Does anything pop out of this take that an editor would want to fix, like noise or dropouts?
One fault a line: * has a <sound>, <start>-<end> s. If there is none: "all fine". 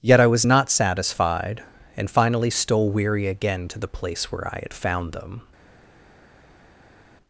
all fine